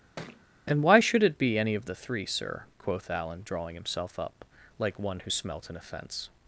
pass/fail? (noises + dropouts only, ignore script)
fail